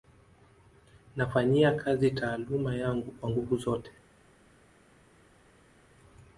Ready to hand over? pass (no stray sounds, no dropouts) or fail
pass